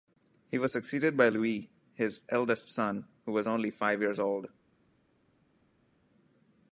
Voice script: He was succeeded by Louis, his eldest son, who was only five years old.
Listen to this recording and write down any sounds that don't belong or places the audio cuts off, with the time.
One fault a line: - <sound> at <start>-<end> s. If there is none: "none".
none